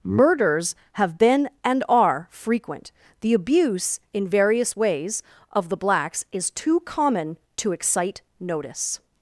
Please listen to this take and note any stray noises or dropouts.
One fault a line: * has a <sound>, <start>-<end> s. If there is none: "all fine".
all fine